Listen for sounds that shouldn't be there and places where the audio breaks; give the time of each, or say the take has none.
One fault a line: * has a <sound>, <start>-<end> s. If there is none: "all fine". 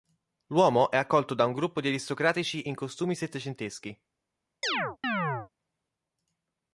* has a chirp, 4.6-5.5 s